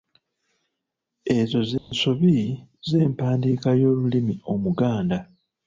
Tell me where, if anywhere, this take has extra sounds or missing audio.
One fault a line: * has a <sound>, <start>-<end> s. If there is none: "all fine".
* has a dropout, 1.8-1.9 s